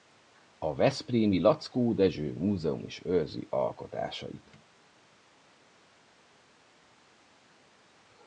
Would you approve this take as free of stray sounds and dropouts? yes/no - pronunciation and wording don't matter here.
yes